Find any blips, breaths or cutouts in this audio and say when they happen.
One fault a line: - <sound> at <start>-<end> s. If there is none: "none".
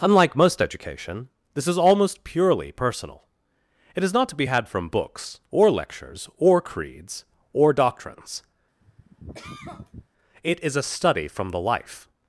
- cough at 8.8-10.1 s